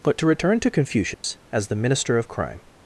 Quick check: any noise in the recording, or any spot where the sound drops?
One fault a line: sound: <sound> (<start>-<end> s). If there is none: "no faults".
sound: dropout (1.1-1.2 s)